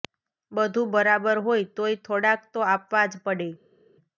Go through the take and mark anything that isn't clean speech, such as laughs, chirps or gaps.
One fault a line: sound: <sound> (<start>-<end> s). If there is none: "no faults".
no faults